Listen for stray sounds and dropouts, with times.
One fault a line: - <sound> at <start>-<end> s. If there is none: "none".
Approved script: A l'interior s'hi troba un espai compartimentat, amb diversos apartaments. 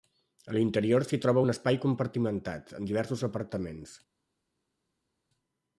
none